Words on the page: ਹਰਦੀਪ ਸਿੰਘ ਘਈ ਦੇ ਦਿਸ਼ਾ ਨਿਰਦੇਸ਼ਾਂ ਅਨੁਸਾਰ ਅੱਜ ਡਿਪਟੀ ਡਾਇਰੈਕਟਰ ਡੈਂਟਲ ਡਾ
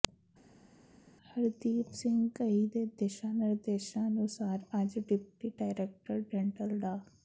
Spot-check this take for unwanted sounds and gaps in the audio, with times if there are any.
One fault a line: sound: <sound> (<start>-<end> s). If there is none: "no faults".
no faults